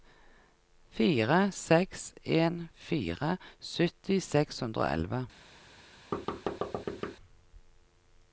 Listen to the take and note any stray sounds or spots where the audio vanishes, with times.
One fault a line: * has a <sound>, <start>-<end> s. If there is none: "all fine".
* has a thud, 6.1-7.2 s